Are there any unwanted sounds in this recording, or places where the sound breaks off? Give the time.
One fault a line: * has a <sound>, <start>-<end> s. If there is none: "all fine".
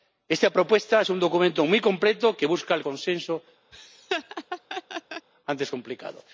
* has a laugh, 3.7-5.3 s